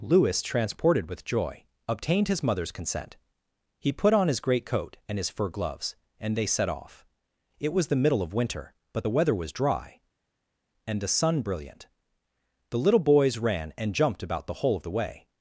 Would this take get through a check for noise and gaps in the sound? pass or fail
pass